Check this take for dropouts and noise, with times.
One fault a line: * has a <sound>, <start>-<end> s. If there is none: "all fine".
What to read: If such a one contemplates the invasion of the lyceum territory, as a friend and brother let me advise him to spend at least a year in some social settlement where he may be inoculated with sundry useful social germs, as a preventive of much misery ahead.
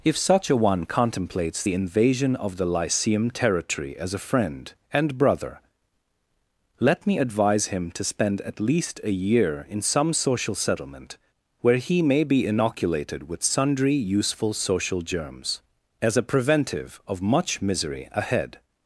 all fine